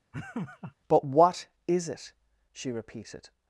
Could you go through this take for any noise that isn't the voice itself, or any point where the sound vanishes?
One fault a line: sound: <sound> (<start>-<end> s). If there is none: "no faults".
sound: laugh (0.1-0.7 s)